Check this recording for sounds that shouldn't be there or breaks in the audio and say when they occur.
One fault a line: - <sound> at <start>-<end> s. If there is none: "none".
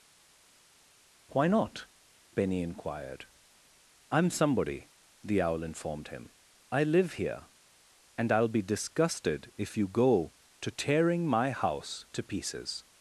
none